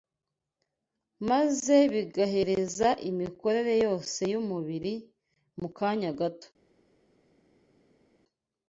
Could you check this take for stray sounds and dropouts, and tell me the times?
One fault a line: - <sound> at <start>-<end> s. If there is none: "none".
none